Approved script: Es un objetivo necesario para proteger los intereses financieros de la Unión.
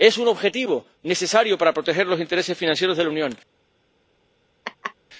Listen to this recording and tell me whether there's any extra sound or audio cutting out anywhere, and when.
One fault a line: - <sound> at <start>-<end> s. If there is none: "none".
- laugh at 4.6-4.9 s